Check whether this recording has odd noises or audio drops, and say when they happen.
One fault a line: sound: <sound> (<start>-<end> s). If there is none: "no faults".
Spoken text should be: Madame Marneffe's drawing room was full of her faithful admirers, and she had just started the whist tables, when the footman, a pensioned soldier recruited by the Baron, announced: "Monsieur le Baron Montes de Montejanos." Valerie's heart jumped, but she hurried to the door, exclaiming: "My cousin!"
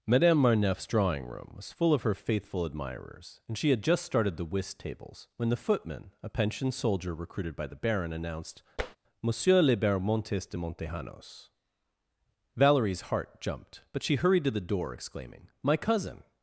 sound: tap (8.8-9.0 s)